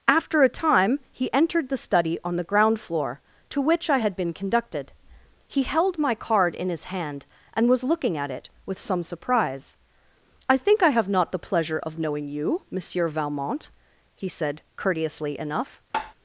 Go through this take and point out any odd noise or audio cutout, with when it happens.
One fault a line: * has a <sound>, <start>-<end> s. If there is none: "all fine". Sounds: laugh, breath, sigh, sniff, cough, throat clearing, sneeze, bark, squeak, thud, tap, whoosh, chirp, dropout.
* has a tap, 15.9-16.1 s